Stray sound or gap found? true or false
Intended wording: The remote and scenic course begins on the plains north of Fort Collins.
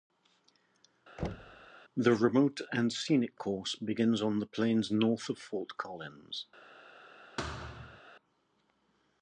true